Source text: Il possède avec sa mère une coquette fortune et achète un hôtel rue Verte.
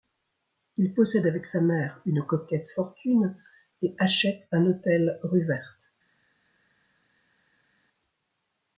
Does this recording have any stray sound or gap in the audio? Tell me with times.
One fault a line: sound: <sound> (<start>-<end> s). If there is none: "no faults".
no faults